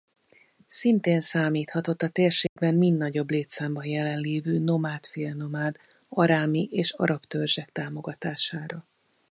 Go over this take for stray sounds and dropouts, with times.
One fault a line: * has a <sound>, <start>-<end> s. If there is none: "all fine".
* has a dropout, 2.5-2.6 s